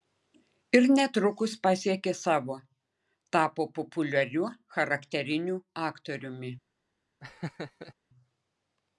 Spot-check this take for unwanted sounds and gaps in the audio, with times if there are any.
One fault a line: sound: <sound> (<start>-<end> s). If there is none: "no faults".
sound: laugh (7.2-7.9 s)